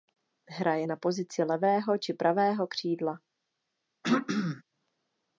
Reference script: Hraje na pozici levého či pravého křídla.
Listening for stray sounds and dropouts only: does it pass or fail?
fail